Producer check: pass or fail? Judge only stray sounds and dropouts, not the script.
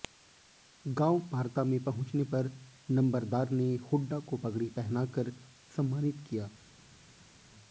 pass